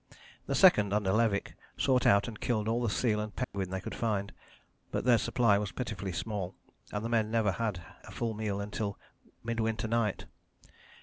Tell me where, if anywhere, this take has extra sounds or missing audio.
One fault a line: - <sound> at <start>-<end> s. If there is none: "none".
- dropout at 3.4-3.5 s